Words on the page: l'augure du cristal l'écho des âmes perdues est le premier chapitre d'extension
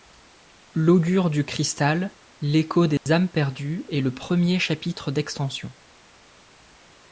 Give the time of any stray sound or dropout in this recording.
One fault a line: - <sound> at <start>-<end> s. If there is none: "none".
- dropout at 3.0-3.1 s